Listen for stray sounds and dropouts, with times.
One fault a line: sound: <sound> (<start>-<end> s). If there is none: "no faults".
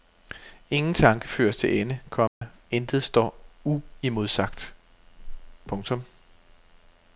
sound: dropout (2.3-2.4 s)